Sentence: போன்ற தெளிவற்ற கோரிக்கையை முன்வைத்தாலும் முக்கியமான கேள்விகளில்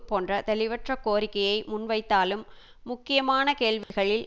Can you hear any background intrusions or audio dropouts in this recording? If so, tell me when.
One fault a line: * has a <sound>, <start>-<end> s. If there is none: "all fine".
* has a dropout, 3.8-3.9 s